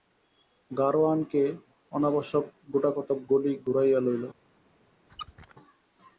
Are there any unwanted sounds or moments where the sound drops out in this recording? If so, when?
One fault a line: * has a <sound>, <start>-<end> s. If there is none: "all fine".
* has a squeak, 5.1-5.5 s